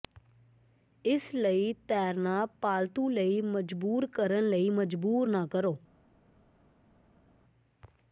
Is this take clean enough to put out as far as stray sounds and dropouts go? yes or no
yes